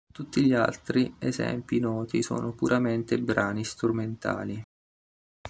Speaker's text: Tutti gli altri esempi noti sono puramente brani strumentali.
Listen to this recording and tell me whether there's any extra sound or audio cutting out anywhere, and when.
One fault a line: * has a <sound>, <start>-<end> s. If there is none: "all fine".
all fine